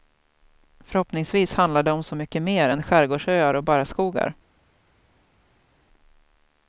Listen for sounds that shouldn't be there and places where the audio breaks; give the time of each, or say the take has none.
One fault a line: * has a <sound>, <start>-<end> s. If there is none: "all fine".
all fine